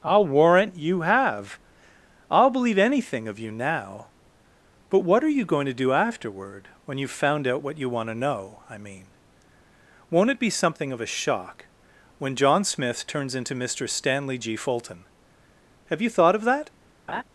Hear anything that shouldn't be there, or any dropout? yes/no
yes